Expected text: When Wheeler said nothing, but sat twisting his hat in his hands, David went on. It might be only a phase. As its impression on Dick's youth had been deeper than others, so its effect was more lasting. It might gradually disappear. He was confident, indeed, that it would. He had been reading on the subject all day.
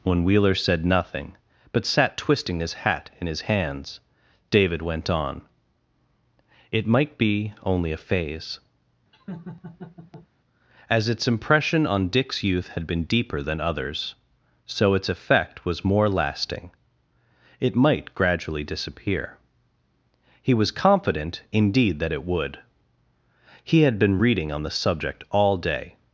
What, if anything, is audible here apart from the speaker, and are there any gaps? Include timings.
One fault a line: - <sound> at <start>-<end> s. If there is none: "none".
- laugh at 9.1-10.3 s